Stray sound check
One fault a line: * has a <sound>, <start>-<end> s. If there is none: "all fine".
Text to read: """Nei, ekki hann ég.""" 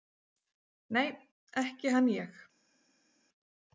all fine